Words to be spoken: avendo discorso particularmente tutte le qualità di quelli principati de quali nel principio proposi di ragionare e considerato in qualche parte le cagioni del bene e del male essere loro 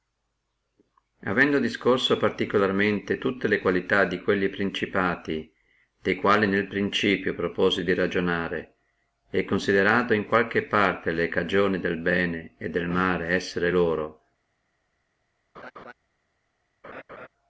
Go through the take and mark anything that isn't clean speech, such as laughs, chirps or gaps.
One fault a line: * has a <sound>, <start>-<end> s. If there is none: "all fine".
* has a laugh, 15.5-15.9 s
* has a laugh, 16.8-17.3 s